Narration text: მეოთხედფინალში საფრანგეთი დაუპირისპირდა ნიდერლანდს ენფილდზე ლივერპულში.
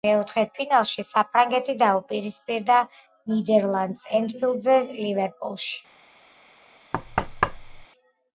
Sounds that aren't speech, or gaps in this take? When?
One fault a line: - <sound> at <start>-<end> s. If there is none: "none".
- thud at 6.9-7.9 s